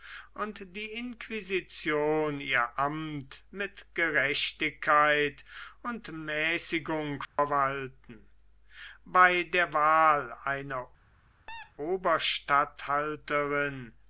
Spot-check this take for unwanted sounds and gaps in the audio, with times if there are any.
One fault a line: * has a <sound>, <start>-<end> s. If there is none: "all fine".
* has a dropout, 7.2-7.4 s
* has a squeak, 11.5-11.7 s